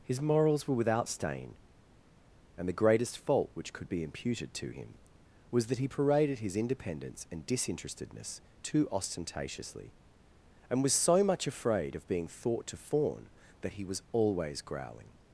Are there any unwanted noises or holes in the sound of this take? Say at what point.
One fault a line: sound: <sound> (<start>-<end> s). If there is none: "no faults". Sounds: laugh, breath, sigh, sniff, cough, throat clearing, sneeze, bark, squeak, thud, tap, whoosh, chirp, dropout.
no faults